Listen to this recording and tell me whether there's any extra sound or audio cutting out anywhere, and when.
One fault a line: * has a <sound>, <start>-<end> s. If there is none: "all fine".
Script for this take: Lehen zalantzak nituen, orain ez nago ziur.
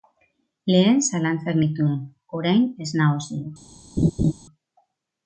* has a laugh, 4.0-4.3 s